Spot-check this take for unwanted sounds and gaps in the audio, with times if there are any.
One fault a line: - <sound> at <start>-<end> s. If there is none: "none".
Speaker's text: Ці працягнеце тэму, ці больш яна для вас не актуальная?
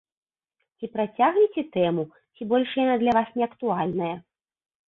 none